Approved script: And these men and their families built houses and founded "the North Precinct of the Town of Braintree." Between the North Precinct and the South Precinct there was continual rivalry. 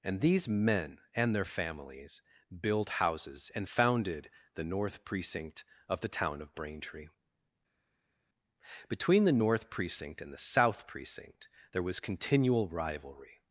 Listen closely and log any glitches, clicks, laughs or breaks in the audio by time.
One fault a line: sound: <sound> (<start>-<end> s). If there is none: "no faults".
no faults